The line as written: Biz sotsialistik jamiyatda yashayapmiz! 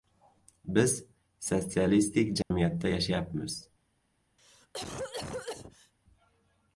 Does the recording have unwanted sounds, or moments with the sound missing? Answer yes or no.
yes